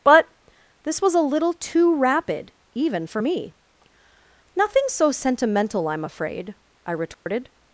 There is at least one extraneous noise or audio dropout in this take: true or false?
true